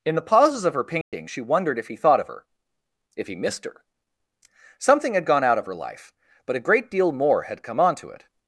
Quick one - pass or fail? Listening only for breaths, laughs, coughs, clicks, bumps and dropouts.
fail